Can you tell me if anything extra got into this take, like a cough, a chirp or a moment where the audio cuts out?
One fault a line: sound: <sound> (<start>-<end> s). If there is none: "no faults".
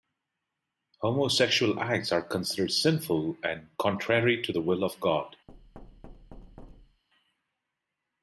sound: thud (5.5-7.0 s)